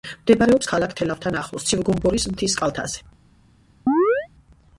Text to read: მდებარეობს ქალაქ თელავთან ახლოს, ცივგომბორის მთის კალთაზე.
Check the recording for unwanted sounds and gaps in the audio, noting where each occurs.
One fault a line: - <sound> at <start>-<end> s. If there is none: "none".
- chirp at 3.9-4.3 s